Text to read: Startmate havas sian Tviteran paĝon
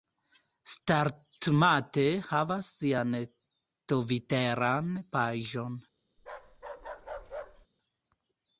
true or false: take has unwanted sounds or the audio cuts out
true